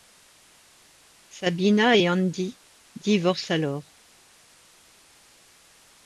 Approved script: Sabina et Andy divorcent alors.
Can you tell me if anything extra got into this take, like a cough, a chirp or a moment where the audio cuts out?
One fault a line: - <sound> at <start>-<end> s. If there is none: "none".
none